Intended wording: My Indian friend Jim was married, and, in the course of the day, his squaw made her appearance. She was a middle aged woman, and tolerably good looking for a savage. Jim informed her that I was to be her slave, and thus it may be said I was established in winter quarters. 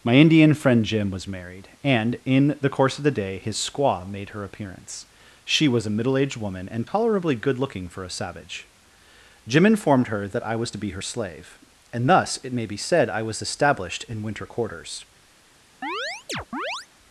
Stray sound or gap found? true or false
true